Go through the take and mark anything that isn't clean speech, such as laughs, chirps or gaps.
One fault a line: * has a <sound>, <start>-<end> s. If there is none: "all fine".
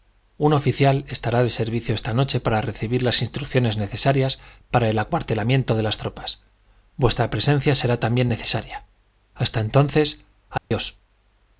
* has a dropout, 10.6-10.7 s